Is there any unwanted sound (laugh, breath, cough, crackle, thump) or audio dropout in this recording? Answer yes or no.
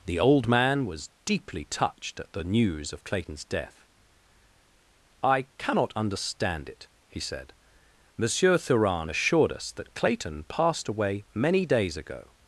no